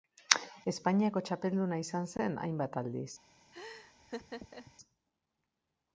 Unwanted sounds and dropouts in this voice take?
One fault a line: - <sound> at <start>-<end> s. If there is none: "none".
- laugh at 3.5-4.7 s